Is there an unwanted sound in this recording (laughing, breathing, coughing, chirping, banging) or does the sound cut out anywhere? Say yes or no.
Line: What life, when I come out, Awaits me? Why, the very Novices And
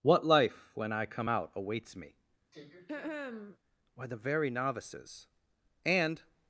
yes